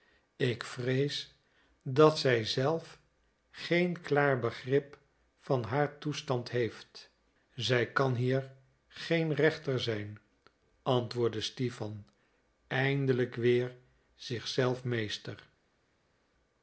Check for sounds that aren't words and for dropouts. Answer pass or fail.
pass